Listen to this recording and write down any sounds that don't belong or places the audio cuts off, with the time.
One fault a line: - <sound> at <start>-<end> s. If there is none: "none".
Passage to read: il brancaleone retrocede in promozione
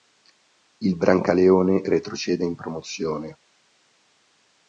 none